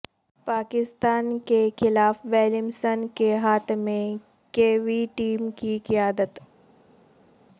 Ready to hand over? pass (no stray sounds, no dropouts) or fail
pass